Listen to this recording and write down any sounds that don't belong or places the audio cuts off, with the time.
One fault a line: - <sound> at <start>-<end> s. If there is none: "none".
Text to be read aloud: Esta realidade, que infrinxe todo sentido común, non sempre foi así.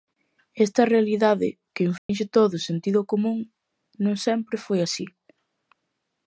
- dropout at 2.0-2.1 s